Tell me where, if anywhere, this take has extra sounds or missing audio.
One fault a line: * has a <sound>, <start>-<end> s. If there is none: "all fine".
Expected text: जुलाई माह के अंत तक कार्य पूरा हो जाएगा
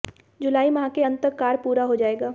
all fine